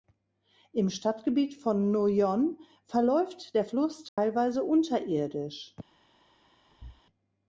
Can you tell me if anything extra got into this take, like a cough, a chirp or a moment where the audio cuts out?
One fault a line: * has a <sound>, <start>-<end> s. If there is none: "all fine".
* has a dropout, 4.1-4.2 s
* has a thud, 6.7-7.0 s